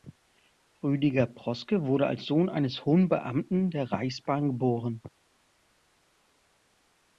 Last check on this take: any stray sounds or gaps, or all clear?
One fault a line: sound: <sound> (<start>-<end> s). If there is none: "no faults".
no faults